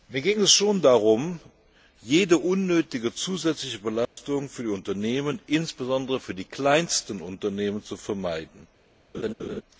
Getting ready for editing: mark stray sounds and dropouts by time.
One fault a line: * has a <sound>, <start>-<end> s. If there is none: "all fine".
* has a dropout, 4.1-4.2 s
* has a laugh, 9.1-9.6 s